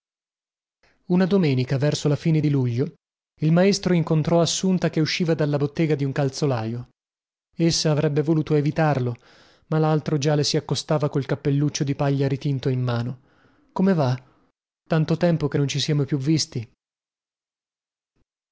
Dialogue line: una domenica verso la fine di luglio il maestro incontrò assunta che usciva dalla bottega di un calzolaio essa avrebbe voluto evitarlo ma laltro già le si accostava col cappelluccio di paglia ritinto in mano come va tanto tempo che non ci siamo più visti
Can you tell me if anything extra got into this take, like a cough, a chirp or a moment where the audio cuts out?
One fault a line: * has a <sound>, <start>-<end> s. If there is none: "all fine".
all fine